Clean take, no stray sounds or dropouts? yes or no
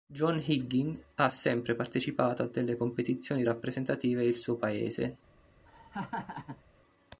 no